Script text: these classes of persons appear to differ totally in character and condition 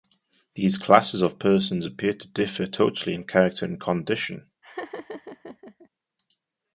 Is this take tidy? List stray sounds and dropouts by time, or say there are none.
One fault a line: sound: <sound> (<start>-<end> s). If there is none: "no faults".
sound: laugh (4.6-5.9 s)